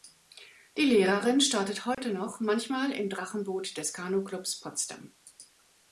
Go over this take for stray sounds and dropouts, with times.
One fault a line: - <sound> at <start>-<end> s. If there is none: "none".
- dropout at 1.9-2.0 s